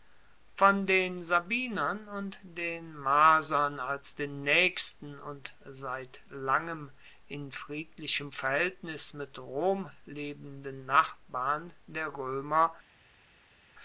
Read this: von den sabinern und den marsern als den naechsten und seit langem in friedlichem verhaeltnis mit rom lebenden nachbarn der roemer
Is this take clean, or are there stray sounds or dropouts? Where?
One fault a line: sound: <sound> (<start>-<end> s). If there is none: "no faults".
no faults